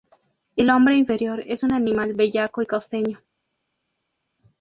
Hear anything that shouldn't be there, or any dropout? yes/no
no